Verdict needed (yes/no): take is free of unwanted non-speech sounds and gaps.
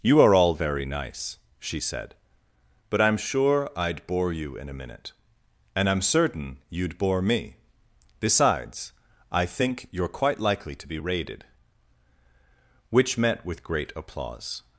yes